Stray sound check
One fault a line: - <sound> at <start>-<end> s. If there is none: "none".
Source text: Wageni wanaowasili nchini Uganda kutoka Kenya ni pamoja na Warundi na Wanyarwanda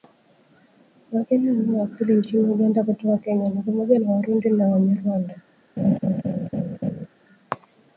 - laugh at 5.8-7.1 s